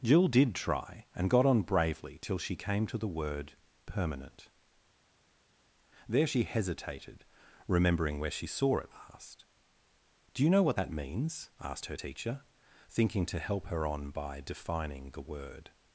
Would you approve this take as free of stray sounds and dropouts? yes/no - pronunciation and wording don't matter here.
yes